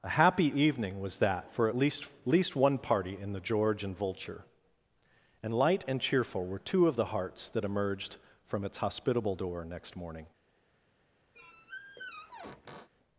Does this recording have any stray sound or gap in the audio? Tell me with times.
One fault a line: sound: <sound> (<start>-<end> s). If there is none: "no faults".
sound: squeak (11.3-12.9 s)